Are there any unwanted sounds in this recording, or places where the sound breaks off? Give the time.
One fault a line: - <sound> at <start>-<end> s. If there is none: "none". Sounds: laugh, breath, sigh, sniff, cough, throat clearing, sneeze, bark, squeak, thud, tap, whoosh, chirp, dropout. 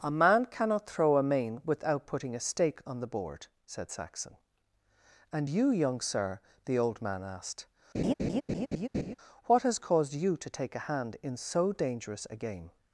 - laugh at 7.9-9.2 s